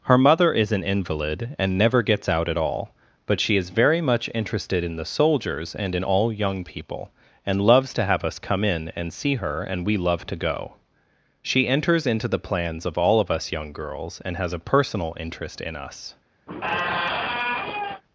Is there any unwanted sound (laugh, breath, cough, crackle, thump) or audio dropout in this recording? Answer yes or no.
yes